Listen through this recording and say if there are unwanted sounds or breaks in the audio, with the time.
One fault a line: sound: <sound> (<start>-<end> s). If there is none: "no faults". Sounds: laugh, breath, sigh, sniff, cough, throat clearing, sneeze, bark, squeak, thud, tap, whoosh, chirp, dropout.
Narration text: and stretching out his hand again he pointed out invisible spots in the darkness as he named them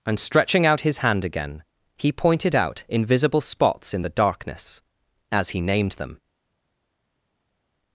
no faults